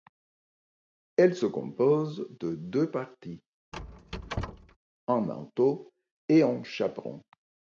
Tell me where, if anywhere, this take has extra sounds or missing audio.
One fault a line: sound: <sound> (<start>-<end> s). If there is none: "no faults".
sound: squeak (3.7-4.8 s)